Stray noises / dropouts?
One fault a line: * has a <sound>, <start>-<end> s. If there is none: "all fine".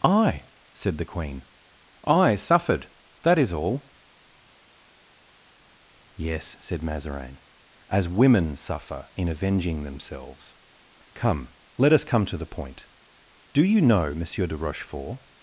all fine